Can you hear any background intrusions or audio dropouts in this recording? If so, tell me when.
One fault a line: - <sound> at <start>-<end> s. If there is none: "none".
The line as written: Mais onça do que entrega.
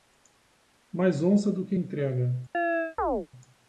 - chirp at 2.5-3.3 s